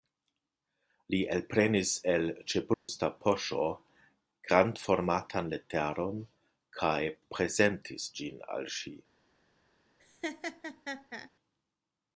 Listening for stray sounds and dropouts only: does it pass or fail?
fail